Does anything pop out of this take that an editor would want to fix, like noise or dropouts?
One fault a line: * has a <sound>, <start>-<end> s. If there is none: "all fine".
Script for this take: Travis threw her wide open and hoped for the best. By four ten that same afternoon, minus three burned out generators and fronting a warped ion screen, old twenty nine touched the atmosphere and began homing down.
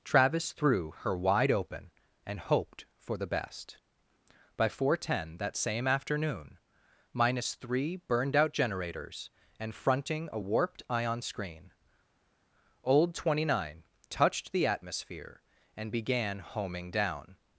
all fine